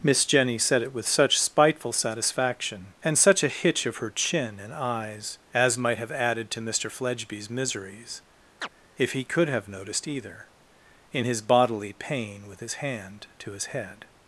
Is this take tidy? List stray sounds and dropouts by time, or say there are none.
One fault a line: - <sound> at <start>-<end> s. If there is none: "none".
- chirp at 8.6-8.7 s